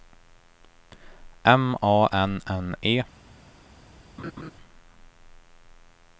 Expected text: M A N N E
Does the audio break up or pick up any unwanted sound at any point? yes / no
yes